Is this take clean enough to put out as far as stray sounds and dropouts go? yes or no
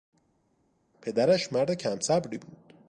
yes